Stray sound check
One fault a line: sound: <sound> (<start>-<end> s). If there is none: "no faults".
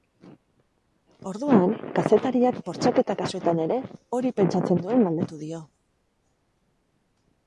no faults